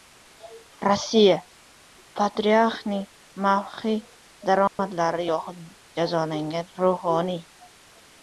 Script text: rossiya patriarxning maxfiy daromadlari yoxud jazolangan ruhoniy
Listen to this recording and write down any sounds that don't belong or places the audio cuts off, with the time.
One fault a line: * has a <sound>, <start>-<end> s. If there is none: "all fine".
* has a dropout, 4.7-4.8 s